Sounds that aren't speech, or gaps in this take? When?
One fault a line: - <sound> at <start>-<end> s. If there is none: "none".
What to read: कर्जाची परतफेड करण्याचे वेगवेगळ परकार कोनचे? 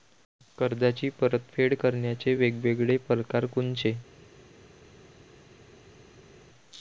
none